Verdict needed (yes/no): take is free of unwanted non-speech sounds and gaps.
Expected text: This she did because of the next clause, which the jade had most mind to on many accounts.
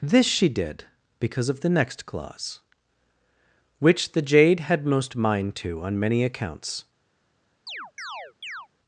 no